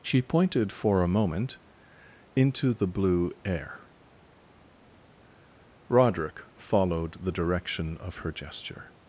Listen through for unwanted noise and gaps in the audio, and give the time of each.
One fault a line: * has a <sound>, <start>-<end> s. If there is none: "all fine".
all fine